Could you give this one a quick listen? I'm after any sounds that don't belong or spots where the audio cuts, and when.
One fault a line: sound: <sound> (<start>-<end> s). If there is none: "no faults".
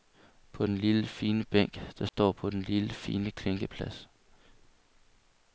sound: dropout (2.1-2.1 s)